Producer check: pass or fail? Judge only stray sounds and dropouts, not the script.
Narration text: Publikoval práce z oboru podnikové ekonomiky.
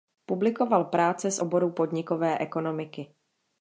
pass